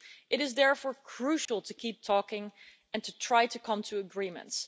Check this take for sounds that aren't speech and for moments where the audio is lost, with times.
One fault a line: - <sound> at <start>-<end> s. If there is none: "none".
- dropout at 1.5-1.5 s